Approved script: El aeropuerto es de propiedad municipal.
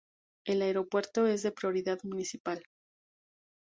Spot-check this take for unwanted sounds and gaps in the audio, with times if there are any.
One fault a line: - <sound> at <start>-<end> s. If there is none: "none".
none